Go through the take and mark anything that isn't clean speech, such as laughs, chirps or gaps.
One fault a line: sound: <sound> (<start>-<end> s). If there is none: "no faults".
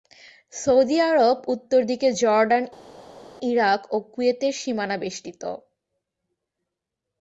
no faults